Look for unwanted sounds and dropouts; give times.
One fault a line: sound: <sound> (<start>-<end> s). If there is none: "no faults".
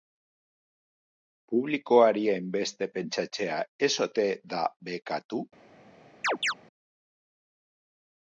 sound: chirp (6.2-6.5 s)